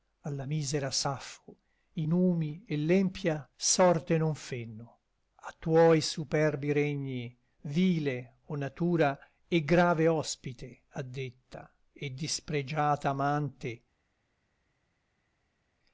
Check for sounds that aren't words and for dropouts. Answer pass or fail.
pass